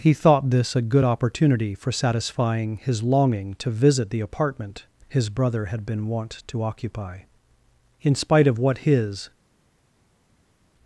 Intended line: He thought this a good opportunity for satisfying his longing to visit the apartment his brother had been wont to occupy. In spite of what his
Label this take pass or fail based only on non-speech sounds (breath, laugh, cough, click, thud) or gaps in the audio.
pass